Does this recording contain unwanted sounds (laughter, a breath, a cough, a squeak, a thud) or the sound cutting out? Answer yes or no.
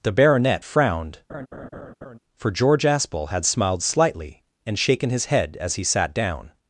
yes